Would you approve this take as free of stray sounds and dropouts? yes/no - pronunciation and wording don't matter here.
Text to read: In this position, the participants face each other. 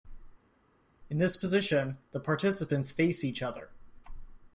yes